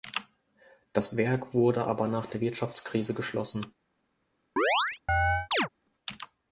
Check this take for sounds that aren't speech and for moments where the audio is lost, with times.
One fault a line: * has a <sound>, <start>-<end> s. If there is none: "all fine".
* has a chirp, 4.6-5.7 s